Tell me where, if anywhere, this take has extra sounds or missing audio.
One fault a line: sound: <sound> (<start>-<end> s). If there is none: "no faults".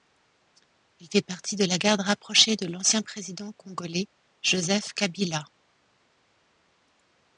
no faults